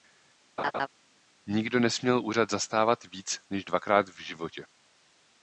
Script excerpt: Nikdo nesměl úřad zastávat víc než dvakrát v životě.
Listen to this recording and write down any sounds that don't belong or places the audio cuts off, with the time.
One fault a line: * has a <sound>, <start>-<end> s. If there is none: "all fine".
* has a laugh, 0.6-0.9 s